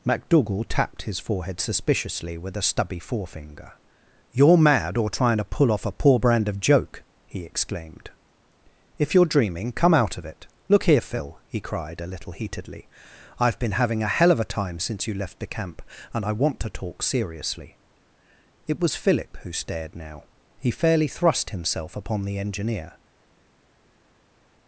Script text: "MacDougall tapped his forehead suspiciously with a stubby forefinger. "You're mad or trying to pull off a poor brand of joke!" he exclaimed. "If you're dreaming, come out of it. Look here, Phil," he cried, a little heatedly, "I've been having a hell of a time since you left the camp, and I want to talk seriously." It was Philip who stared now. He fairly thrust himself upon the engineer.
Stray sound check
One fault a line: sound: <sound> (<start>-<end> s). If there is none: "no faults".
no faults